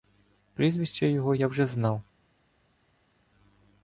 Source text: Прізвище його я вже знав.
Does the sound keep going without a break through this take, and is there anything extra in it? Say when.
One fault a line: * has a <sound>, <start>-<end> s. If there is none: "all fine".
all fine